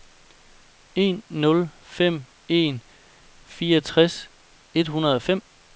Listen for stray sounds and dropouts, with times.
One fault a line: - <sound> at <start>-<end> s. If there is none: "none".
none